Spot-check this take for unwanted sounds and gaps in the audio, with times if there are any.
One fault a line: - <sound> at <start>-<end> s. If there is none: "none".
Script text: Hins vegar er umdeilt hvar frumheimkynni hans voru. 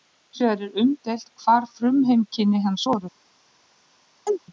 - chirp at 4.3-4.4 s